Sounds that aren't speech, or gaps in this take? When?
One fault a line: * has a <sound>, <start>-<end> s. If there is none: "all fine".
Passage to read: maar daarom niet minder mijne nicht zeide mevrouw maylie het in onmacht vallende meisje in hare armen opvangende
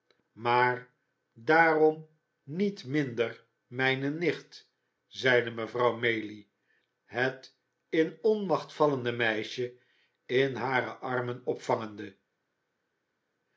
all fine